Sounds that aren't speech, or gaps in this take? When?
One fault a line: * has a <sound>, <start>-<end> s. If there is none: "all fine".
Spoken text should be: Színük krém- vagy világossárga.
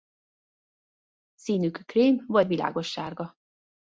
all fine